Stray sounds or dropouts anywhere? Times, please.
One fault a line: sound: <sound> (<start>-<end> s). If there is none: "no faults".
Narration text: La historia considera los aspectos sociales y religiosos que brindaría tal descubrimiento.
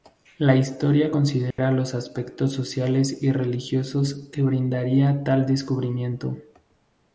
sound: dropout (1.5-1.6 s)